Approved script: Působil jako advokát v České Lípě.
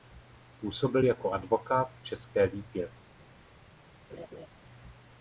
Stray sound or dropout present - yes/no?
yes